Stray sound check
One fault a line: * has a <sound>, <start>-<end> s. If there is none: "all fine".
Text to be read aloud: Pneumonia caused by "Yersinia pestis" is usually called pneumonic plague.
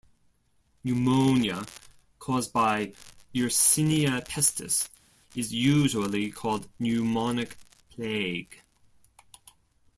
all fine